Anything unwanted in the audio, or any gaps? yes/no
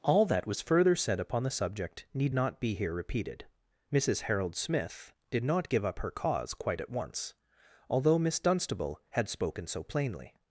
no